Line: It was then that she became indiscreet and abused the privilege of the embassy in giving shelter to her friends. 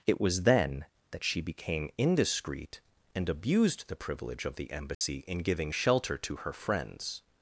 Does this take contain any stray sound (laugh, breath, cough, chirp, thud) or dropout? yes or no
yes